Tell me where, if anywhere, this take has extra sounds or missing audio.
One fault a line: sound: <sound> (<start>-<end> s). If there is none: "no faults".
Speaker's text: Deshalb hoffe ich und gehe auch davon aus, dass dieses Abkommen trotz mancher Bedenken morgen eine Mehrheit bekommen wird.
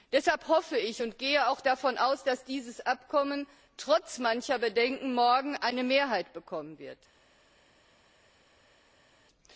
no faults